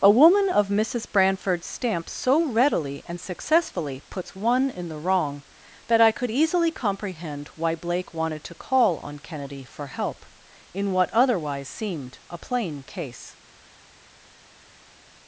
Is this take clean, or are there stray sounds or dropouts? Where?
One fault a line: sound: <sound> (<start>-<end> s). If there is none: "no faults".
no faults